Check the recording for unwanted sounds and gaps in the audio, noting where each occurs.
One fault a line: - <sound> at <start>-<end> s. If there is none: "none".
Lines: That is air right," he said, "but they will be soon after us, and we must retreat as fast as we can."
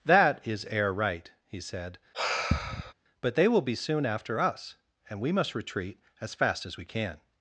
- sigh at 2.1-2.9 s